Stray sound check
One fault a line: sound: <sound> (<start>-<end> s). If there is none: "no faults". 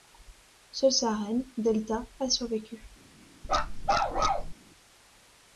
sound: bark (3.4-4.5 s)